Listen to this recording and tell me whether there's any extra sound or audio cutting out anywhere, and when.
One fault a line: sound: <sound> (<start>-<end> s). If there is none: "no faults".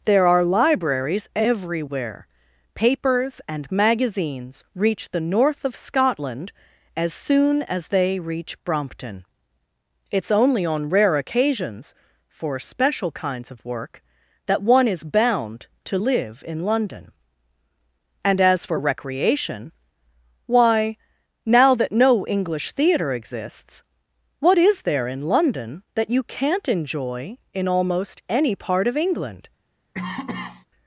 sound: cough (29.9-30.7 s)